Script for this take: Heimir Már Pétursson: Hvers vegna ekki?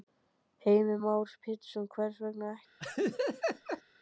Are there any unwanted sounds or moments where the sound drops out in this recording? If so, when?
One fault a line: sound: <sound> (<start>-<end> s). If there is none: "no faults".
sound: laugh (2.8-3.8 s)